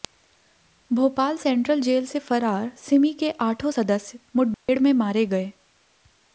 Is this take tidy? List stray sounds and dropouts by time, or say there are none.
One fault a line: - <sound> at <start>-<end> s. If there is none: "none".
- dropout at 4.5-4.7 s